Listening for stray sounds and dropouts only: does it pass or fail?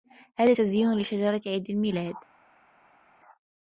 pass